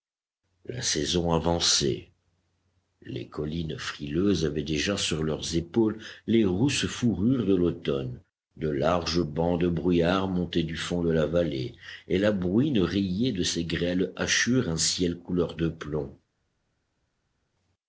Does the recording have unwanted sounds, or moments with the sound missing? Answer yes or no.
no